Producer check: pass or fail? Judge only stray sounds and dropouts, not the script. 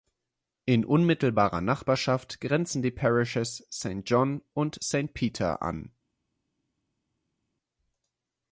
pass